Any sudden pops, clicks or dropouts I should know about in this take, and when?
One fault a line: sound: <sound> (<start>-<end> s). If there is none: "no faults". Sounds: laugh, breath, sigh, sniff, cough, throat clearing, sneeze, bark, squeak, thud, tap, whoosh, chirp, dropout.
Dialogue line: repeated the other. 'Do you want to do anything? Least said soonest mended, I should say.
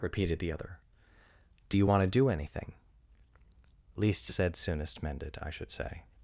no faults